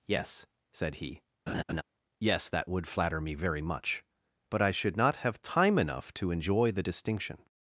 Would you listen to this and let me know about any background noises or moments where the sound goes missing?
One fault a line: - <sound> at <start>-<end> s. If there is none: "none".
- laugh at 1.5-1.8 s